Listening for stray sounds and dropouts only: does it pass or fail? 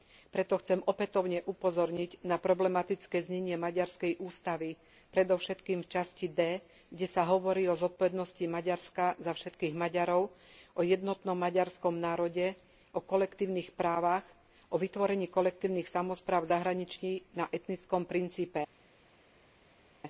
pass